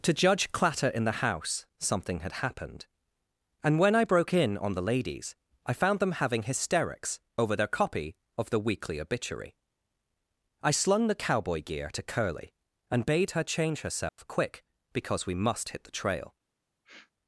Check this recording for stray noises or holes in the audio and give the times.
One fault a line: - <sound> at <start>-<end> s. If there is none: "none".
- dropout at 14.1-14.2 s
- sniff at 16.8-17.1 s